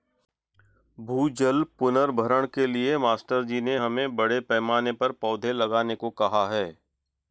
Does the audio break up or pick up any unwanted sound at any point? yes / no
no